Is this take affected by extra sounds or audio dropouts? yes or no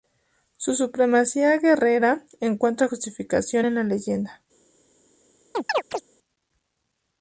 yes